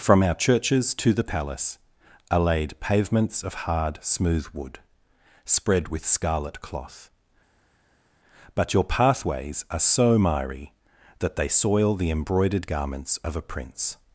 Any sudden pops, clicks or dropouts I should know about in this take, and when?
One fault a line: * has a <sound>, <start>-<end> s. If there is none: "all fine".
all fine